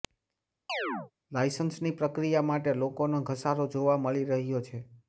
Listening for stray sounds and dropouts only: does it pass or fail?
fail